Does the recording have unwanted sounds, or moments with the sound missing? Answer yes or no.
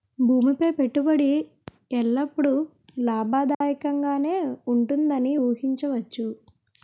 yes